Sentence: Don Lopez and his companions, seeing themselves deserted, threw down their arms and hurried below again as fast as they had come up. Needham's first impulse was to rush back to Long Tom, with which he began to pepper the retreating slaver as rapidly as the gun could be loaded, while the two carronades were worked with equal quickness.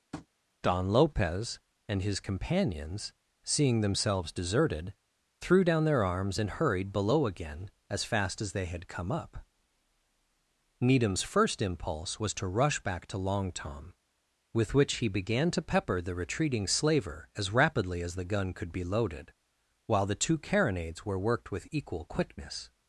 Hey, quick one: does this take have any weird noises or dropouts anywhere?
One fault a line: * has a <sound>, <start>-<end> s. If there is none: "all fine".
* has a tap, 0.1-0.3 s